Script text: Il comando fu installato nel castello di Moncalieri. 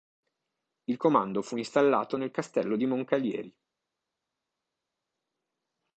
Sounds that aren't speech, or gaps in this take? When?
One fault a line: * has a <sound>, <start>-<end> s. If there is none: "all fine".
all fine